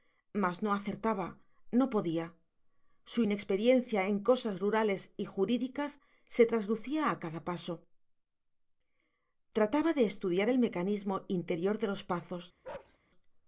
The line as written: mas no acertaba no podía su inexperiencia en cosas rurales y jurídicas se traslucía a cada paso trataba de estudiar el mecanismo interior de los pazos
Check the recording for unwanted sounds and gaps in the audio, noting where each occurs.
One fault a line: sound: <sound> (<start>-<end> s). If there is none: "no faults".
sound: bark (12.6-13.0 s)